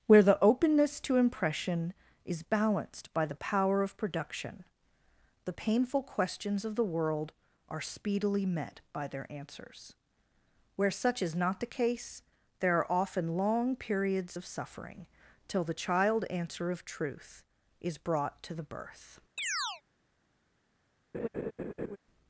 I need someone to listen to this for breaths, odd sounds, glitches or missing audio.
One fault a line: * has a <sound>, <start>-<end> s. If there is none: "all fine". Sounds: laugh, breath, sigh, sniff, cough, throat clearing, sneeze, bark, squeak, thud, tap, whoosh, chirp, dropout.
* has a chirp, 19.4-19.8 s
* has a laugh, 21.1-22.0 s